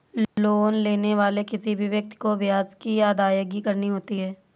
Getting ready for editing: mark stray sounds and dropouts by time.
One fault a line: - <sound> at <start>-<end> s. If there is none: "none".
- dropout at 0.2-0.4 s